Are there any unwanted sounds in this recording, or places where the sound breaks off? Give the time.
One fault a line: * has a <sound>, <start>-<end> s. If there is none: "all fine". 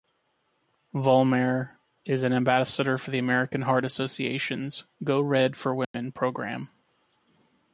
* has a dropout, 5.8-5.9 s